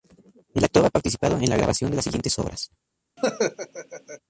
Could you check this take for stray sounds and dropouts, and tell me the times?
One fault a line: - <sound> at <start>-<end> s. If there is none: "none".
- laugh at 3.2-4.2 s